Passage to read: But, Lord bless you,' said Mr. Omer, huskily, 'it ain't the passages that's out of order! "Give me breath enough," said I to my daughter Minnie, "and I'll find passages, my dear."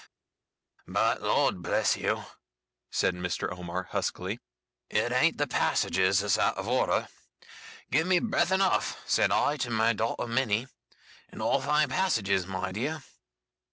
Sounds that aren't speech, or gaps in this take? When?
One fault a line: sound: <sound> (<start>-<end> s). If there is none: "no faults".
no faults